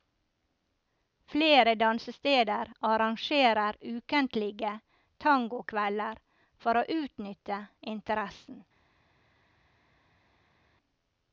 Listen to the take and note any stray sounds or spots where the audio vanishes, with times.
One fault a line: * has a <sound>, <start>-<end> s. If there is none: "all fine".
all fine